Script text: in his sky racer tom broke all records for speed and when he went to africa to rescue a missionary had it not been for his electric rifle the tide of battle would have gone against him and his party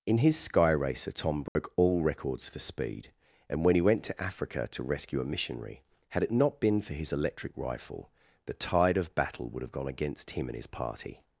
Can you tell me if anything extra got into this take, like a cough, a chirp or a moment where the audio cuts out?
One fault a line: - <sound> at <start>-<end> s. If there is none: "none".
- dropout at 1.5-1.6 s